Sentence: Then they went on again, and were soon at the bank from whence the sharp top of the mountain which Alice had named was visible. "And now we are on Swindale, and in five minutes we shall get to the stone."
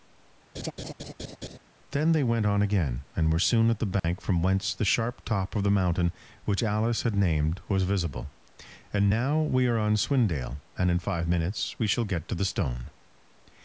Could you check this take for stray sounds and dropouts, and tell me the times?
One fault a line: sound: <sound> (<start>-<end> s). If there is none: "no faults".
sound: laugh (0.5-1.6 s)
sound: dropout (4.0-4.0 s)